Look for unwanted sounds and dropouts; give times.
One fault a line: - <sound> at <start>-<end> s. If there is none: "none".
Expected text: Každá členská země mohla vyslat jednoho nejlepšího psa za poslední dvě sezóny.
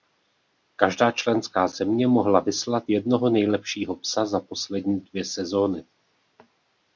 none